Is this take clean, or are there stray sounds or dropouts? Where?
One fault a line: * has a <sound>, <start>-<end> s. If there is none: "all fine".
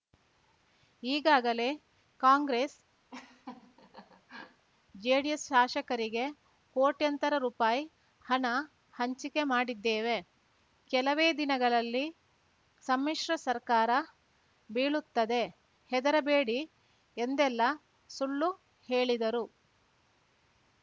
* has a laugh, 3.1-4.7 s